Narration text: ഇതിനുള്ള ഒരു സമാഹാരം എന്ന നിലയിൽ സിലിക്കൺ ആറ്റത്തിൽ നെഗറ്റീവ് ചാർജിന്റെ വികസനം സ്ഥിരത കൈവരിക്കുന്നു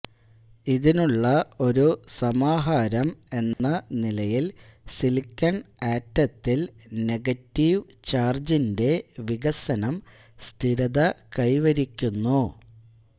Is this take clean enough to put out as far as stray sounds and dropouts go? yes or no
no